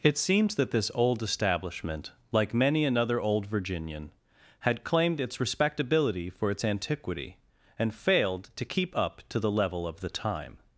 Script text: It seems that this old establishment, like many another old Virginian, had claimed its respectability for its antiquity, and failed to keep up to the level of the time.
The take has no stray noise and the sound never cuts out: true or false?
true